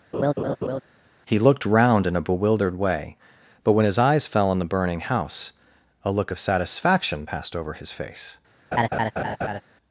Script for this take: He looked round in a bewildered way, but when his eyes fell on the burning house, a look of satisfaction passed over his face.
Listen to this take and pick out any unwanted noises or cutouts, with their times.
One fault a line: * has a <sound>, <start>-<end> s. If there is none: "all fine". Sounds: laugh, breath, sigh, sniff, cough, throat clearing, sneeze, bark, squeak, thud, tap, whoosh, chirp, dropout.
* has a laugh, 0.1-0.8 s
* has a laugh, 8.7-9.6 s